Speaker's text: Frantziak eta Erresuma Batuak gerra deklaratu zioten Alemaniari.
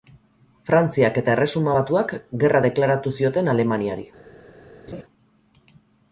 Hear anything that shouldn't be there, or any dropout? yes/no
yes